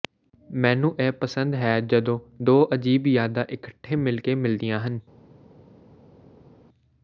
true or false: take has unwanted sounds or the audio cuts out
false